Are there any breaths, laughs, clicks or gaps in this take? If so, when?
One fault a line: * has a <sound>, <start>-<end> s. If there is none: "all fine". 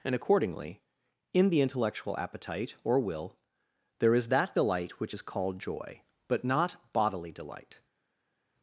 all fine